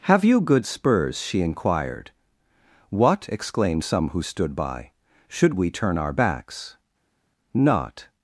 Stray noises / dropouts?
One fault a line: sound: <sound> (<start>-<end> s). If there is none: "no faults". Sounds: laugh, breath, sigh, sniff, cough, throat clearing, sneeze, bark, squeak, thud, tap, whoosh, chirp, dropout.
no faults